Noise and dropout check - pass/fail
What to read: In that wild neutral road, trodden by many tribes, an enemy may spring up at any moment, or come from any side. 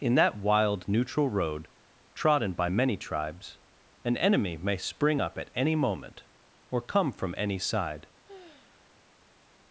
fail